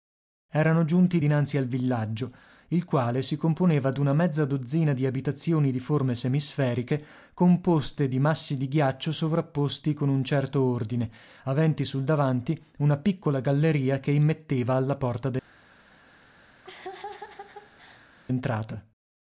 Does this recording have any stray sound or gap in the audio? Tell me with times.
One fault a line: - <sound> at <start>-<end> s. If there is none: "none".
- laugh at 16.6-18.1 s